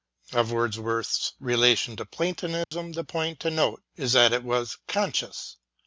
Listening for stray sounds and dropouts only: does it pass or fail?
fail